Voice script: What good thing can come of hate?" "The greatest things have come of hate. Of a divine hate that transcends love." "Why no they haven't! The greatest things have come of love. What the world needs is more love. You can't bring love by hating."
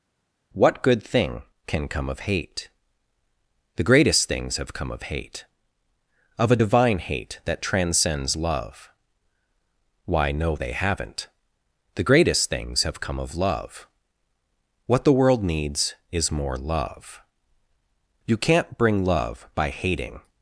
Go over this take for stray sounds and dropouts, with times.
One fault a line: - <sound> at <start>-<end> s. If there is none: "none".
none